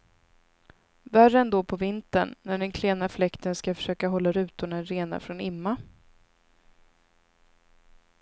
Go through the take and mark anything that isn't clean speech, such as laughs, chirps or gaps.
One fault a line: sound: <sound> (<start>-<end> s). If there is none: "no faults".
no faults